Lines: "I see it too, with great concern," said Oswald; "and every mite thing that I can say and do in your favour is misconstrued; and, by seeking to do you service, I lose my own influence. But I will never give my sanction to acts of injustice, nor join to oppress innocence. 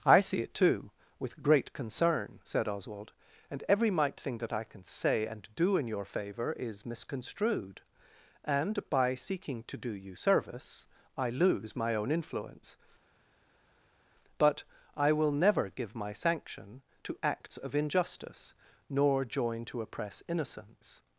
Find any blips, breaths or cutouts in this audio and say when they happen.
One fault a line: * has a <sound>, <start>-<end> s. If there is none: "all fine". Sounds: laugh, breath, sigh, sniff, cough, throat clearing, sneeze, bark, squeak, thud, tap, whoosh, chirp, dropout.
all fine